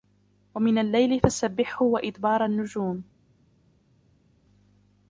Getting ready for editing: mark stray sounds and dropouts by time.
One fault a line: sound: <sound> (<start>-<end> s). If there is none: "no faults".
no faults